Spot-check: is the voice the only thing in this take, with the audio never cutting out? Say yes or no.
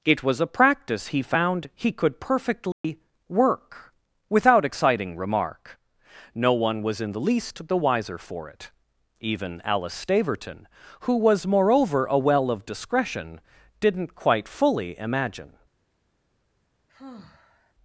no